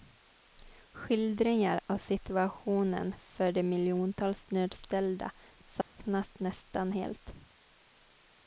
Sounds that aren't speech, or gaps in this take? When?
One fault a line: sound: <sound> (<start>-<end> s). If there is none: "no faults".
sound: dropout (5.8-5.9 s)